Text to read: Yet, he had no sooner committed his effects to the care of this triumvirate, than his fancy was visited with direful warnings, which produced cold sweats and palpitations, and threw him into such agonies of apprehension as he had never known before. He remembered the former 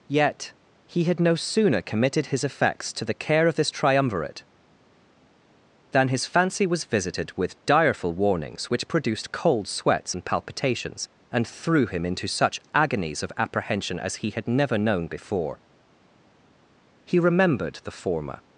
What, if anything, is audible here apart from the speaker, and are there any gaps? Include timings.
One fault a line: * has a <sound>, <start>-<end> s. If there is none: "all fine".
all fine